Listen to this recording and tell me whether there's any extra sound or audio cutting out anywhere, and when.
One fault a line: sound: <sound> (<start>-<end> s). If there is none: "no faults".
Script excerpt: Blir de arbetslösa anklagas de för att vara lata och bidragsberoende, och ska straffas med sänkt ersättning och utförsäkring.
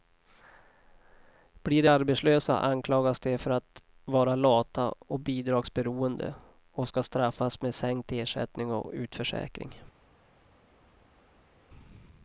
no faults